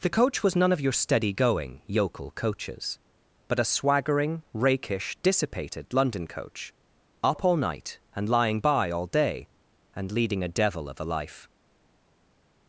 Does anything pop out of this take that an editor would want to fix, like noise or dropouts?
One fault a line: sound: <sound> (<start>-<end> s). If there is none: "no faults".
no faults